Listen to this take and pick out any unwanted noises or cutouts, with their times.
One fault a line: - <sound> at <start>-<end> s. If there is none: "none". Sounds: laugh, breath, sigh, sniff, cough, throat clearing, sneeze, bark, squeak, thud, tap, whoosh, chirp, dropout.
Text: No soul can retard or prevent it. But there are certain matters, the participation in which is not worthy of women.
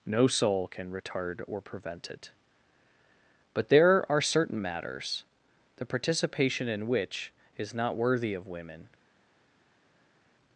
none